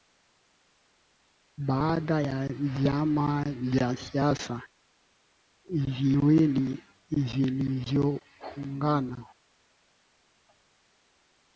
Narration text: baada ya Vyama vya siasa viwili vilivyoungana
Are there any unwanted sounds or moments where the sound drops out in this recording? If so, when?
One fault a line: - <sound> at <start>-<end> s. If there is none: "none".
none